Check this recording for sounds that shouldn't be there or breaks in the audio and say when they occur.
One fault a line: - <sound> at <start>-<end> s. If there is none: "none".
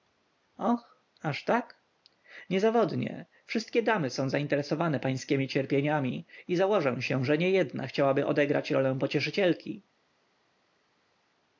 none